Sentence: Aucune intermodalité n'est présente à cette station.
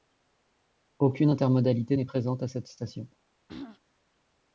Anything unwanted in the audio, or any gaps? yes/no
yes